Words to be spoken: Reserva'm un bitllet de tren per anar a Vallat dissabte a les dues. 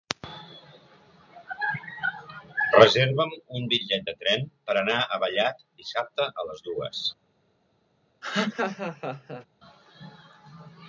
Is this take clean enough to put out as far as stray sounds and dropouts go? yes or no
no